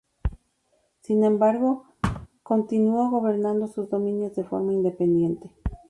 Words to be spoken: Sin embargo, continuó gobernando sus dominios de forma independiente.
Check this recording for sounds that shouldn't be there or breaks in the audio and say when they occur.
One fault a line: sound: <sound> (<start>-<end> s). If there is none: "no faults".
sound: thud (2.0-2.3 s)